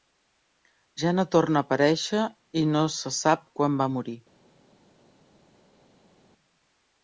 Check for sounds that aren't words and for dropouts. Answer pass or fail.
pass